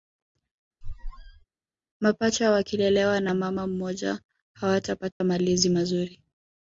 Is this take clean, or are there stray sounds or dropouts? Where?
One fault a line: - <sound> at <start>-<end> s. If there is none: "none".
- squeak at 0.8-1.4 s
- dropout at 5.1-5.2 s